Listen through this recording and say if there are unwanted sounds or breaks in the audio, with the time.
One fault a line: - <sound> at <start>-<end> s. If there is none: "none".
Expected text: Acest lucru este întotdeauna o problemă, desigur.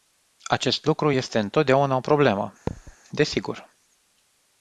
- thud at 2.7-3.0 s